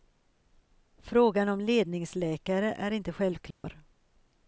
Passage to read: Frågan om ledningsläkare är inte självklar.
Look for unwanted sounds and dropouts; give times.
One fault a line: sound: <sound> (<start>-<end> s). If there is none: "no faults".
sound: dropout (3.5-3.6 s)